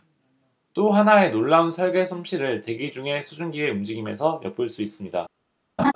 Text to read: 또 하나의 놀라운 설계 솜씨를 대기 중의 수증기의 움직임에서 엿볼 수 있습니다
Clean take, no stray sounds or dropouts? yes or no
no